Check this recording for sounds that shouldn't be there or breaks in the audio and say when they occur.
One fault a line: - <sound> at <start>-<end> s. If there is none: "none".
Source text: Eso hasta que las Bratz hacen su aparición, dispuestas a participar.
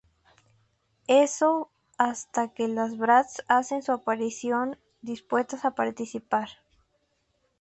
none